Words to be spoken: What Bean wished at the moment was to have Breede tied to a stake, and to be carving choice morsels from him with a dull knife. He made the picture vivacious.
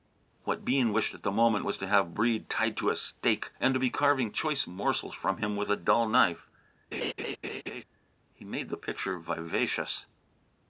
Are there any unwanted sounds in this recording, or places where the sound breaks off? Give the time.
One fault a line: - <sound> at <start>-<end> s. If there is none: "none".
- laugh at 6.9-7.8 s